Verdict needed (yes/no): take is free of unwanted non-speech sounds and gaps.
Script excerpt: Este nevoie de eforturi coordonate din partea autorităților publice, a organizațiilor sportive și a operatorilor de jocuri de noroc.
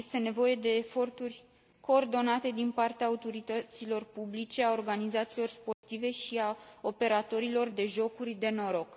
no